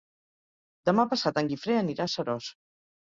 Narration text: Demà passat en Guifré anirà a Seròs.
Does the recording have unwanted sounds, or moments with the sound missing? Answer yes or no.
no